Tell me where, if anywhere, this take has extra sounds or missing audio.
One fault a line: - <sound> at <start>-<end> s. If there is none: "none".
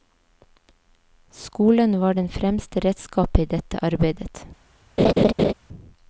- laugh at 5.0-5.5 s